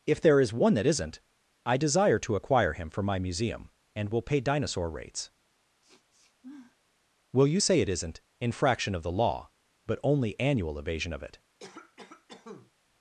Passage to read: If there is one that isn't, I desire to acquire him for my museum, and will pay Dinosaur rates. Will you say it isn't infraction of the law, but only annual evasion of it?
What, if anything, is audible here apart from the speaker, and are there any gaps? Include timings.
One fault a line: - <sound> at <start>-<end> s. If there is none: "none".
- sniff at 5.8-6.8 s
- cough at 11.6-12.7 s